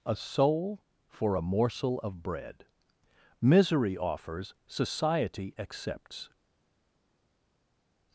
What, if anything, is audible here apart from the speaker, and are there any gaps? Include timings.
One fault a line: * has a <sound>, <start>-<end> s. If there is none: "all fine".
all fine